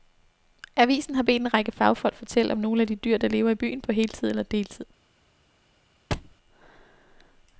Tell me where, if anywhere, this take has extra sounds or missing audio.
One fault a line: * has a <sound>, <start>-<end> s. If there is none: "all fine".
* has a thud, 6.1-6.4 s